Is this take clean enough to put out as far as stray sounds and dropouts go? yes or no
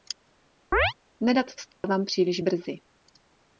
no